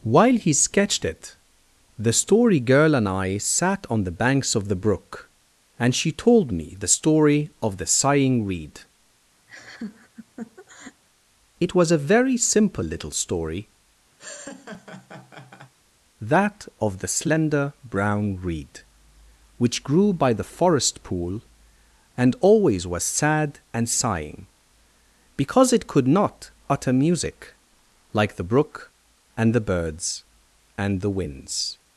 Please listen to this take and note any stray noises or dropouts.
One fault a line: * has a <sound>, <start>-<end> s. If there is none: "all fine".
* has a laugh, 9.5-11.0 s
* has a laugh, 14.2-15.7 s